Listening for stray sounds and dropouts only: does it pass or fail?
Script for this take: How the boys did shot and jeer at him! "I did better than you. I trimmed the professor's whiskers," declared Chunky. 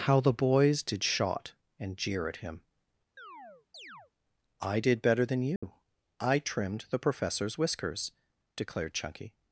fail